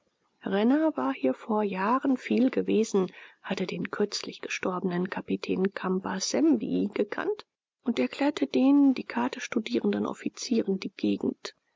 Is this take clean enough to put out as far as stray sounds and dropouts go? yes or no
yes